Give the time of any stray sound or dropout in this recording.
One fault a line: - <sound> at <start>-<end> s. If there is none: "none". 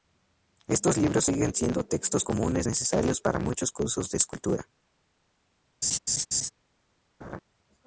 - laugh at 5.8-6.5 s
- laugh at 7.2-7.4 s